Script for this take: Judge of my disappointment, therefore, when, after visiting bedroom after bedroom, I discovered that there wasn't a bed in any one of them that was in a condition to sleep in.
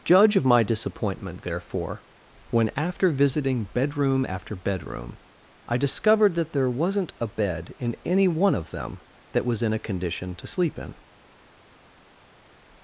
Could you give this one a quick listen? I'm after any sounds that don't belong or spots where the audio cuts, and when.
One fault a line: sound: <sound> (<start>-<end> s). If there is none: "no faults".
no faults